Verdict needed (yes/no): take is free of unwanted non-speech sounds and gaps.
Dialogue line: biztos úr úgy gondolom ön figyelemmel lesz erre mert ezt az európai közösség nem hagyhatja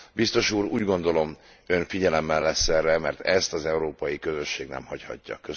yes